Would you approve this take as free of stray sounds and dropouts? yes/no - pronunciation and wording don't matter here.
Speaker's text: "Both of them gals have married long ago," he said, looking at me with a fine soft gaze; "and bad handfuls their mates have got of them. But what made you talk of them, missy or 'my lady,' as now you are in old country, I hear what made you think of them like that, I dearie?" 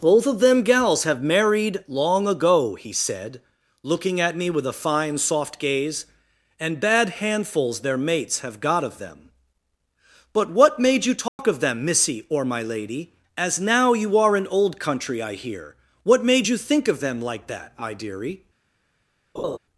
no